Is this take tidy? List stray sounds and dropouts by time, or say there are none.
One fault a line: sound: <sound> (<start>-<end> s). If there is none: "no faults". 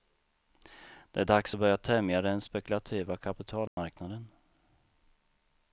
sound: dropout (3.7-3.8 s)